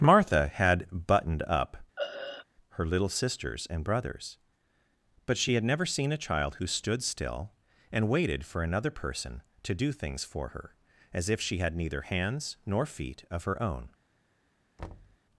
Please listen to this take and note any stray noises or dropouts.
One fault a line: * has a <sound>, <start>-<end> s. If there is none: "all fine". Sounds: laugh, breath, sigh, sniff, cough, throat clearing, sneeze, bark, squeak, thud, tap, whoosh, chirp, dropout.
* has a throat clearing, 2.0-2.5 s
* has a thud, 14.8-15.2 s